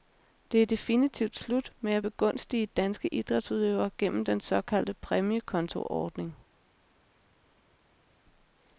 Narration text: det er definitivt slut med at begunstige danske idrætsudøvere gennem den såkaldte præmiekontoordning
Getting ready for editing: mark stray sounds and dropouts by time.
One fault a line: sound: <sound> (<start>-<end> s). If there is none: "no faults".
no faults